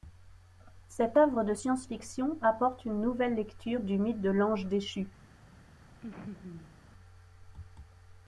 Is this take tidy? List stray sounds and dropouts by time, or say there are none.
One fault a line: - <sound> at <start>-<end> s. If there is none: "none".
- laugh at 6.0-6.8 s